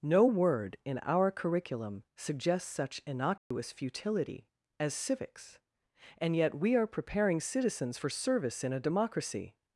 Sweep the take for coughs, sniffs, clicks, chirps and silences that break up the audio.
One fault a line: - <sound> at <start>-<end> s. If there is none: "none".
- dropout at 3.4-3.5 s